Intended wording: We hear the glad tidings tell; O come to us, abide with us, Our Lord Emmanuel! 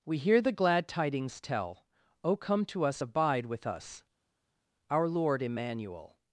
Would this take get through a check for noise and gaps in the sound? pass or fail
pass